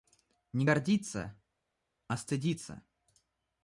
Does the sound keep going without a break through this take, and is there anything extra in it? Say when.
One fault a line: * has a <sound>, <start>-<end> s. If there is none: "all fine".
all fine